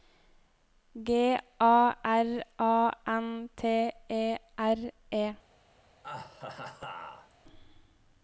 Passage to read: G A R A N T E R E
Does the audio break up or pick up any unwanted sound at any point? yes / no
yes